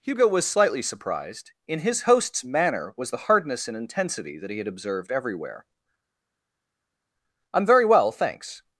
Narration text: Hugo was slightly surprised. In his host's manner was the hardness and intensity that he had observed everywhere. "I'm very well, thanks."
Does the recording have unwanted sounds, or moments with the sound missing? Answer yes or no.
no